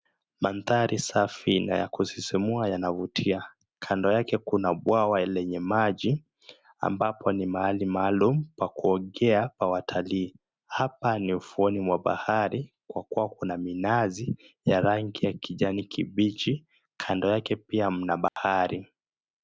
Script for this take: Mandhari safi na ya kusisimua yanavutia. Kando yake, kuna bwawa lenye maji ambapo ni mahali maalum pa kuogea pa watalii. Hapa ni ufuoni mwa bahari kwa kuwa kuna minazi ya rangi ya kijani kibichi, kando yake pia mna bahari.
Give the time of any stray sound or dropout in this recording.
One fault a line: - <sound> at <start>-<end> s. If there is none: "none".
- dropout at 18.3-18.4 s